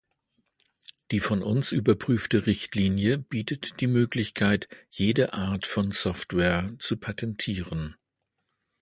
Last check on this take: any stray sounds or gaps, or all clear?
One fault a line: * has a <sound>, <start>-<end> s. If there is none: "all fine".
all fine